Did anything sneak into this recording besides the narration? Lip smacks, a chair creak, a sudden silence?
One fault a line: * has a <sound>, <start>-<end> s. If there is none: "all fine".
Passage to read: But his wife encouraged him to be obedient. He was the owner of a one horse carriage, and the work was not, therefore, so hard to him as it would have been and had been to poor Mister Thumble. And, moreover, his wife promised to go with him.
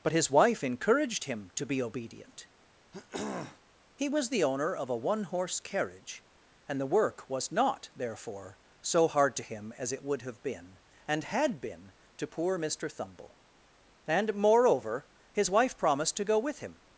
* has a throat clearing, 2.9-3.6 s